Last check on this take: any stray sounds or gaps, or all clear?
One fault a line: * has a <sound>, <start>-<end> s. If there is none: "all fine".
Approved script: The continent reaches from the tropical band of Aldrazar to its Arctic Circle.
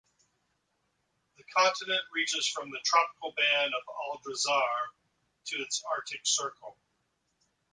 all fine